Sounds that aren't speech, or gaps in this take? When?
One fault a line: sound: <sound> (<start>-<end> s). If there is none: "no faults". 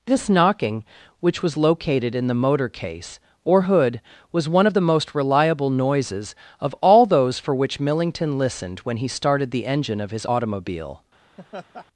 sound: laugh (11.4-11.9 s)